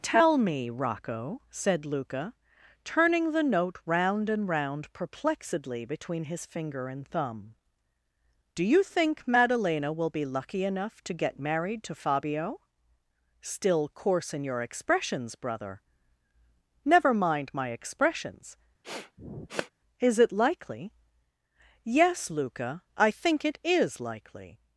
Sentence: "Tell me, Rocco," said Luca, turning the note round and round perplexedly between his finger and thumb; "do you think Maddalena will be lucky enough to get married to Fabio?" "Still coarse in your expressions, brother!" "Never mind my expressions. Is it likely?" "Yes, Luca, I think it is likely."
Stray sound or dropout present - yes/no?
yes